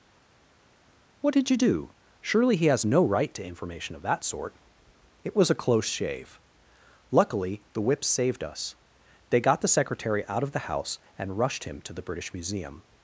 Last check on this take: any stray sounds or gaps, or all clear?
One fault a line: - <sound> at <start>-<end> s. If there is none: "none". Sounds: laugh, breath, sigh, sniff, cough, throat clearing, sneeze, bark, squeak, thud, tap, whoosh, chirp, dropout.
none